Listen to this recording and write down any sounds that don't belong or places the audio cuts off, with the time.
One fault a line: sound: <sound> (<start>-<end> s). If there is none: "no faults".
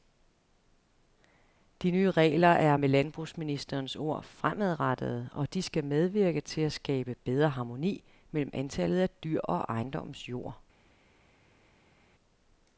no faults